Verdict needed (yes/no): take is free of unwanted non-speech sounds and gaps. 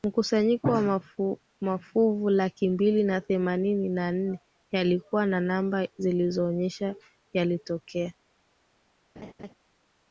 no